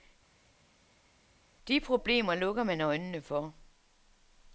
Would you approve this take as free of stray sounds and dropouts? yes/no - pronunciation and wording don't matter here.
yes